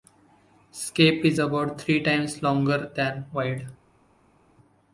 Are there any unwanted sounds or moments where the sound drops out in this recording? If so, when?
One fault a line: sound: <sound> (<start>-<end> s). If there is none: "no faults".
no faults